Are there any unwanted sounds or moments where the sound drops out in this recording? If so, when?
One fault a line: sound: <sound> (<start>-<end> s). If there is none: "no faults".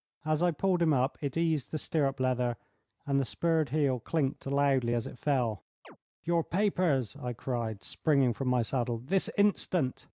sound: chirp (5.8-6.0 s)